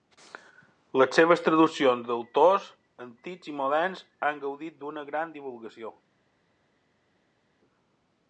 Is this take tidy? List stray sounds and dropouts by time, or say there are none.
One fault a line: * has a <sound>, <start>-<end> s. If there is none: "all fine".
all fine